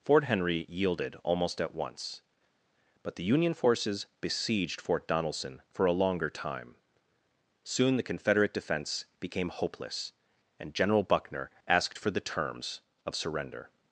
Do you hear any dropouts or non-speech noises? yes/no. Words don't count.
no